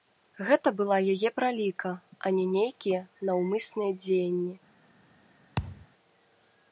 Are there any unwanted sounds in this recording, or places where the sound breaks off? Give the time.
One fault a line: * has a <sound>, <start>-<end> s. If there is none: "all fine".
* has a thud, 5.6-5.9 s